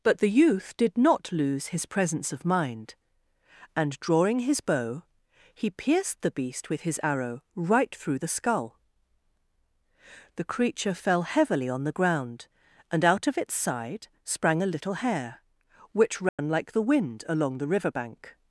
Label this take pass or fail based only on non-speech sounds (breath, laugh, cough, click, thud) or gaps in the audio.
fail